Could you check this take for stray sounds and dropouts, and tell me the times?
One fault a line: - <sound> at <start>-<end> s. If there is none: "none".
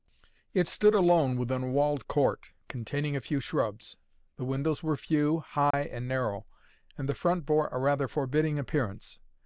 - dropout at 5.7-5.7 s